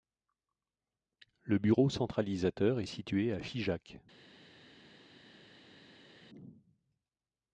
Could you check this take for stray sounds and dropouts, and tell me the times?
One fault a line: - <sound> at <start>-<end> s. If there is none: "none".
none